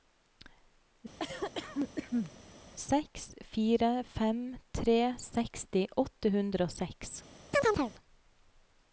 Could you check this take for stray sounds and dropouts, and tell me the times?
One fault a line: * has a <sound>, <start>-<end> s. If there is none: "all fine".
* has a cough, 1.2-2.3 s
* has a chirp, 7.5-7.9 s